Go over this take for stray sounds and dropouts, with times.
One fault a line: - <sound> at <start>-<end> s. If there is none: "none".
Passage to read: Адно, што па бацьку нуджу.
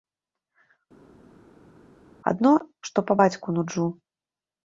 none